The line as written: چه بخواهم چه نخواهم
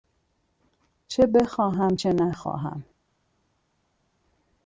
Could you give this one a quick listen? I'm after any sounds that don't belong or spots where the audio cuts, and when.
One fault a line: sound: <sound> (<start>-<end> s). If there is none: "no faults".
no faults